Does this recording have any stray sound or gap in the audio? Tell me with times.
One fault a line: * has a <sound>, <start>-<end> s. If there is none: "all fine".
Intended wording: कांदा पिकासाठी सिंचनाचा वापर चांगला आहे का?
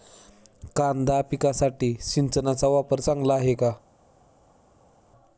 all fine